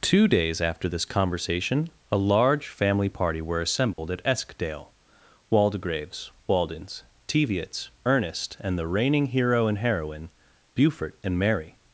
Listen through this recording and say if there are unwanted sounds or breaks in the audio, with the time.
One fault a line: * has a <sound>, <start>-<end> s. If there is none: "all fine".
* has a dropout, 3.9-4.0 s